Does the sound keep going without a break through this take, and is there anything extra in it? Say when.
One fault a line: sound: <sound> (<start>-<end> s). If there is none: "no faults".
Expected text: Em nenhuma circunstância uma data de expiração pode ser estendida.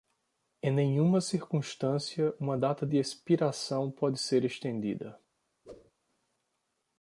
sound: whoosh (5.6-5.9 s)